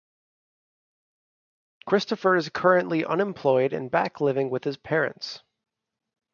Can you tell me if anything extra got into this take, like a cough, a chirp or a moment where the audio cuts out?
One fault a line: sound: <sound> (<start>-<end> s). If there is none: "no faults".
no faults